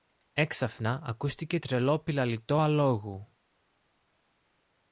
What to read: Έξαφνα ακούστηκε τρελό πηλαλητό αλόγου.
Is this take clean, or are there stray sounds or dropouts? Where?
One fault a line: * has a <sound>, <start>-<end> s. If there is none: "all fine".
all fine